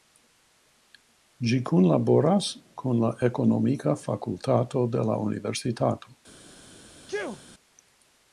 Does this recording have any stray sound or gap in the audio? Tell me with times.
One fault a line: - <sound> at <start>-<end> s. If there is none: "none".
- sneeze at 7.1-7.4 s